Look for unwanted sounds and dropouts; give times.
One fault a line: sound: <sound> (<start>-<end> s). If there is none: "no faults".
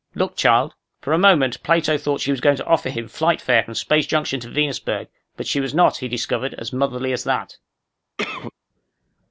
sound: cough (8.2-8.5 s)